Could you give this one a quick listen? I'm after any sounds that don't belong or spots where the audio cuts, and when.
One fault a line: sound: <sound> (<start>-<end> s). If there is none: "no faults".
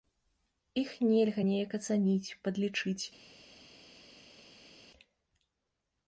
no faults